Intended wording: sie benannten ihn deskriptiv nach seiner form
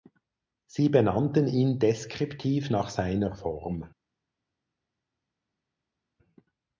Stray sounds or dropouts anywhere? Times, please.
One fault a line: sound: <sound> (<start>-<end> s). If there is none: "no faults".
no faults